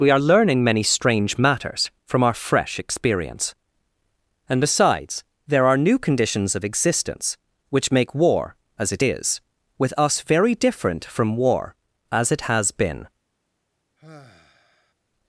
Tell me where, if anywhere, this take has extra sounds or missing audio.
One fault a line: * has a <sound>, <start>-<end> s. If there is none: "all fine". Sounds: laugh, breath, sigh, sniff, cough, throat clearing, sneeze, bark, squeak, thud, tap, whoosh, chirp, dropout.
* has a sigh, 14.0-14.9 s